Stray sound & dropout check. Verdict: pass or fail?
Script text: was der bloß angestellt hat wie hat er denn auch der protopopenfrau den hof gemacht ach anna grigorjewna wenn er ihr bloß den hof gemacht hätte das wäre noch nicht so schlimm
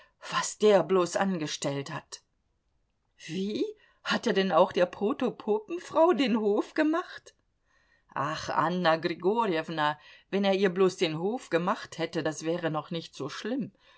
pass